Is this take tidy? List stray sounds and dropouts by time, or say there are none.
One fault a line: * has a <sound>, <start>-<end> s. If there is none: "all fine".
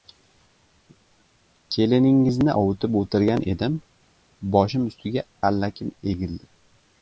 all fine